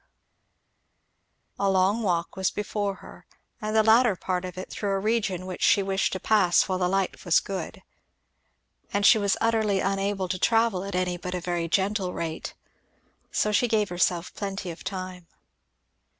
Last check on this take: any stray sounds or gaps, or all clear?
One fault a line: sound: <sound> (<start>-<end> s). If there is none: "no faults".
no faults